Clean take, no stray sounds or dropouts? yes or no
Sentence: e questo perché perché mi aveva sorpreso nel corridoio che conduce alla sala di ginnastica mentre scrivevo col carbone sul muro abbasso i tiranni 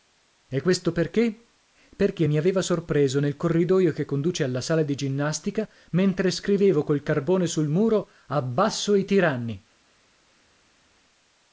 yes